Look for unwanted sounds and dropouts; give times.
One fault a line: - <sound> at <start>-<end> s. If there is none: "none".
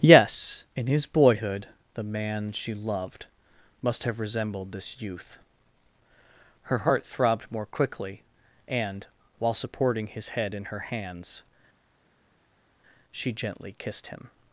none